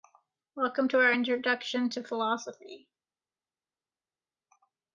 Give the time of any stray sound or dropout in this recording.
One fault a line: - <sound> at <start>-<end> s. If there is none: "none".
none